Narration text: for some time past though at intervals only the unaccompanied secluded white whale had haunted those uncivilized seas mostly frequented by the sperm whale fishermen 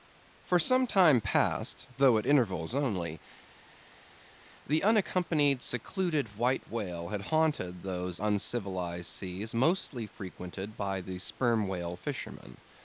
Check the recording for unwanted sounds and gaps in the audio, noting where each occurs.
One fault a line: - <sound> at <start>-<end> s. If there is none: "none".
none